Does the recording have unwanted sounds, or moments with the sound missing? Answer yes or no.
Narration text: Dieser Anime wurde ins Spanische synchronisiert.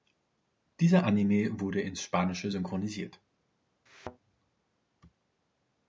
yes